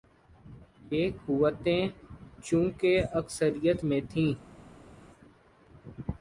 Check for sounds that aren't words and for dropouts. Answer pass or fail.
pass